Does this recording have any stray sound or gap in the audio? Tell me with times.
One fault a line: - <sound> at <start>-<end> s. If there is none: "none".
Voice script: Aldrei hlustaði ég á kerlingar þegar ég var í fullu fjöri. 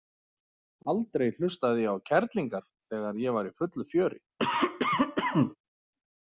- cough at 4.4-5.6 s